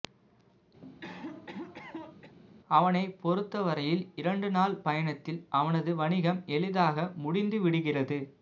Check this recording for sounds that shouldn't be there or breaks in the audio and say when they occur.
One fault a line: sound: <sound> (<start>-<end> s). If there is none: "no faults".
sound: cough (0.8-2.4 s)